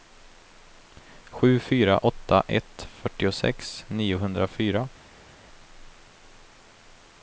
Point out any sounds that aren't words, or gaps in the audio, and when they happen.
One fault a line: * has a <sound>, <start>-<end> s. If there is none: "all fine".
all fine